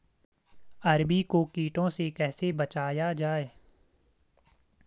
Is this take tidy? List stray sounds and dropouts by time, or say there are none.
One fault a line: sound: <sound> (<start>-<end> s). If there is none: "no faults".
no faults